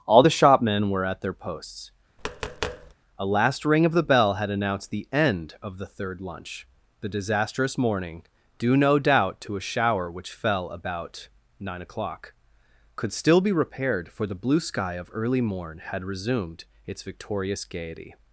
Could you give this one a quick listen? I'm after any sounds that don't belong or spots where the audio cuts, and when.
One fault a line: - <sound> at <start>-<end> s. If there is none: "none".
- tap at 2.2-2.9 s